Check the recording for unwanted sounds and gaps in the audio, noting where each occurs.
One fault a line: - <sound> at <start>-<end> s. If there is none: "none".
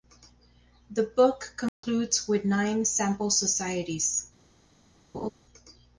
- dropout at 1.7-1.8 s
- laugh at 5.1-5.3 s